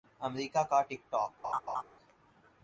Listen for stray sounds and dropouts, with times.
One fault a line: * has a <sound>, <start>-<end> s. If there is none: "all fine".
* has a laugh, 1.4-1.8 s